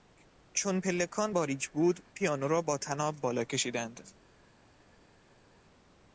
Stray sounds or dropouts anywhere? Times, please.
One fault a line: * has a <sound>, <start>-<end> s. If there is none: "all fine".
all fine